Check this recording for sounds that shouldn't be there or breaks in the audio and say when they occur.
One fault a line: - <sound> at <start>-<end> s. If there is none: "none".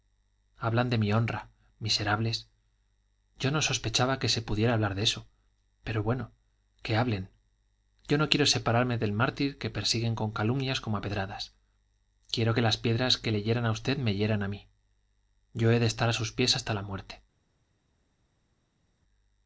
none